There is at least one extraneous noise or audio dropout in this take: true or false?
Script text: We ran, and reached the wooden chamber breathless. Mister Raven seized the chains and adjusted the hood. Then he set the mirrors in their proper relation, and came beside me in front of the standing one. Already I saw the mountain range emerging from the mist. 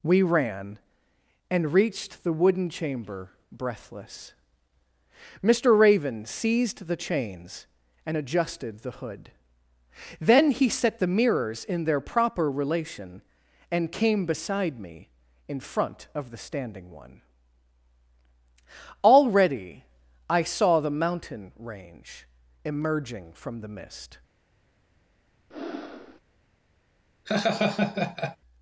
true